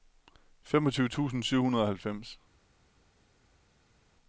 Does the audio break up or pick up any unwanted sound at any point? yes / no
no